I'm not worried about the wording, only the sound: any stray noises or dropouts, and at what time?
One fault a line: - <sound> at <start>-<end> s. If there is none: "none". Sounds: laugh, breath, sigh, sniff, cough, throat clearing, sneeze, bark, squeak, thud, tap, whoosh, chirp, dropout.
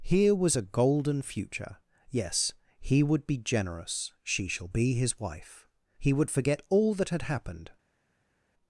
none